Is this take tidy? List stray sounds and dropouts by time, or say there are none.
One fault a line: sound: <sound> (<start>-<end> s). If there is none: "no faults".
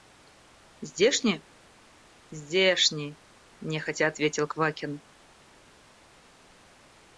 no faults